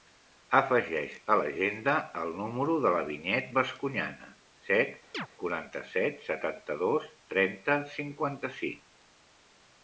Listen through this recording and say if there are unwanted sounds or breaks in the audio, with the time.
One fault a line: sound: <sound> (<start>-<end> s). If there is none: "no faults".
sound: chirp (5.1-5.3 s)